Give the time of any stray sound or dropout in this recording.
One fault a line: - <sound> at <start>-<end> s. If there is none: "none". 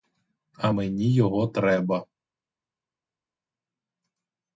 none